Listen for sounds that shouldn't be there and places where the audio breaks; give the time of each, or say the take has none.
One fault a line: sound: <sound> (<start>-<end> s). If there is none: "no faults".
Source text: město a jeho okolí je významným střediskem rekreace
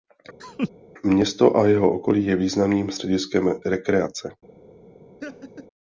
sound: laugh (0.4-0.7 s)
sound: laugh (5.2-5.7 s)